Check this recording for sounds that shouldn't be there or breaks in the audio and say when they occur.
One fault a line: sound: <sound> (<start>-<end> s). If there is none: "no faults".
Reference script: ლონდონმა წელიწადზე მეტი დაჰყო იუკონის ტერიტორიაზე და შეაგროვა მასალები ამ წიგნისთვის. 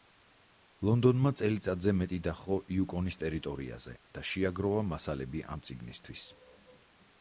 no faults